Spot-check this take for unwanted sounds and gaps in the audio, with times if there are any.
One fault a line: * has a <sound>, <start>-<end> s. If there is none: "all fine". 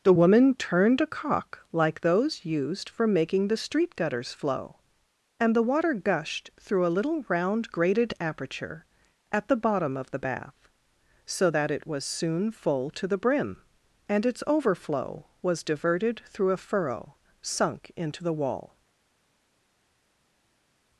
all fine